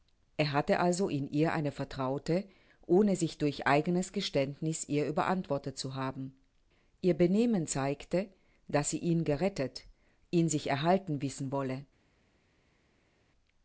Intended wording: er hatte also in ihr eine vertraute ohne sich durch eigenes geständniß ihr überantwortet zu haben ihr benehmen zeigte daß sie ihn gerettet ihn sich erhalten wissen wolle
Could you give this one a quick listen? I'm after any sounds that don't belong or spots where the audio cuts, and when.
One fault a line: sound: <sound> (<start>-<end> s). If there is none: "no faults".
no faults